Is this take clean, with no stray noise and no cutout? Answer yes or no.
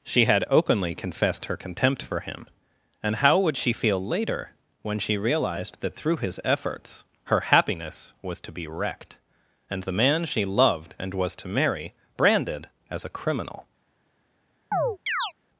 no